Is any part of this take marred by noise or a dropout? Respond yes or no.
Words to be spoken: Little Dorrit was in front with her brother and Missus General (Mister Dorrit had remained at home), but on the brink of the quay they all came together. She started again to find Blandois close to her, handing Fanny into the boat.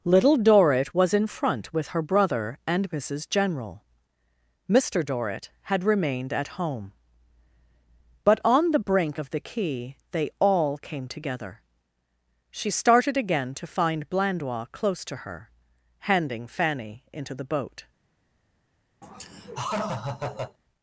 yes